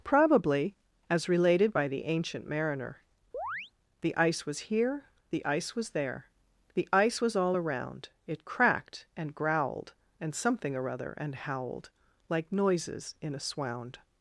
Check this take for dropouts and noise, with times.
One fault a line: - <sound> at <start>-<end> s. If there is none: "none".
- chirp at 3.3-3.7 s